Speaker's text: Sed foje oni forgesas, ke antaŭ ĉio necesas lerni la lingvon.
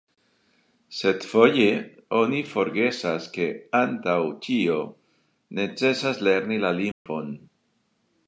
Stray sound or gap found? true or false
true